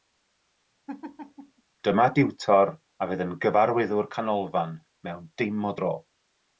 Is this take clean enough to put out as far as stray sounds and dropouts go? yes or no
no